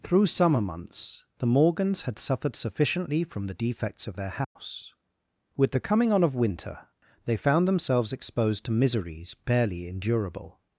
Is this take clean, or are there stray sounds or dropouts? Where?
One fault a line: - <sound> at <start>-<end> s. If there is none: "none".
- dropout at 4.4-4.6 s